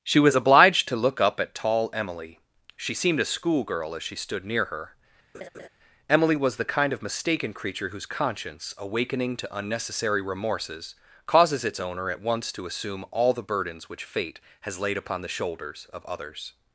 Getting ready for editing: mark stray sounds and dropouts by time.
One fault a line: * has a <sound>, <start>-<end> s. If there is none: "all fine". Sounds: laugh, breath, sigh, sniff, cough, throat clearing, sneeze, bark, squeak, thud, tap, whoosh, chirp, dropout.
* has a laugh, 5.3-5.7 s